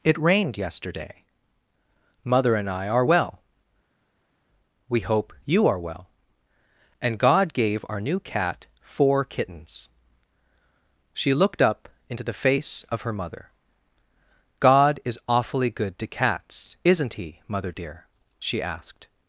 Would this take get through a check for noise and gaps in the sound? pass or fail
pass